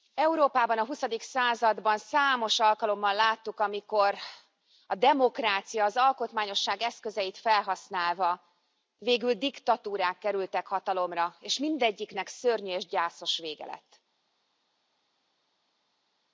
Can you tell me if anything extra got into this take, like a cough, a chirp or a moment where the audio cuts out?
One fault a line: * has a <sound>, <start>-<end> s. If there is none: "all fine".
all fine